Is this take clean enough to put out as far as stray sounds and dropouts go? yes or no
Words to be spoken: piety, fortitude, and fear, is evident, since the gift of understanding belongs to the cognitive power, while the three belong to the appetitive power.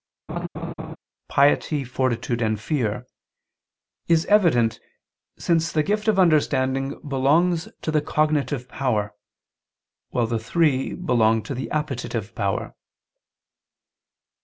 no